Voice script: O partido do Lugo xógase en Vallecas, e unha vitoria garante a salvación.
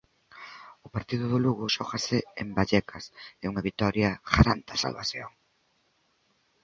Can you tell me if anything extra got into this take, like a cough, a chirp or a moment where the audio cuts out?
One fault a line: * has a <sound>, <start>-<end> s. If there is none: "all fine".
all fine